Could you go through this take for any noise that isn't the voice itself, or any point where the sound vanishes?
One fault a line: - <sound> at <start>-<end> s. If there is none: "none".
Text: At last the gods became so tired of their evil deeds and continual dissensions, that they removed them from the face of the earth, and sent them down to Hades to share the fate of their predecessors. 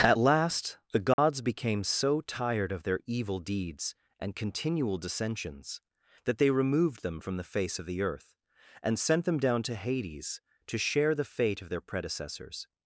- dropout at 1.1-1.2 s